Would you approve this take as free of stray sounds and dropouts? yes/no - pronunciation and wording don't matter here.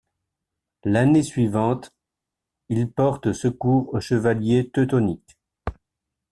yes